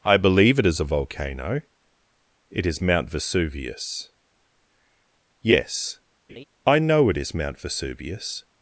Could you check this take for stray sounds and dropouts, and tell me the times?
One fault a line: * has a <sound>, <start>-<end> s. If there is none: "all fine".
* has a laugh, 6.3-6.4 s